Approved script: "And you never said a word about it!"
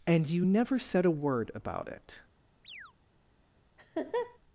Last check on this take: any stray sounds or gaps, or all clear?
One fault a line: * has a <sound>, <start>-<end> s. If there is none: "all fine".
* has a chirp, 2.6-2.9 s
* has a laugh, 3.8-4.4 s